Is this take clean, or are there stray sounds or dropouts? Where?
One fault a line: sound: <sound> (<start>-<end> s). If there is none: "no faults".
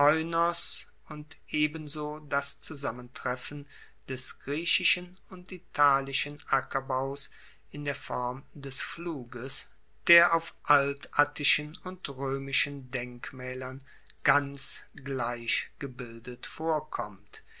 no faults